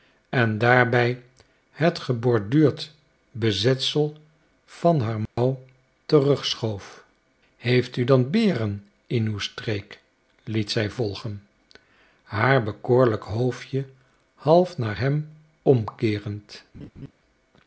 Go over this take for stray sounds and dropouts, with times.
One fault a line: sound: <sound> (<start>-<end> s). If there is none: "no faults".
sound: dropout (5.3-5.4 s)
sound: laugh (16.7-17.1 s)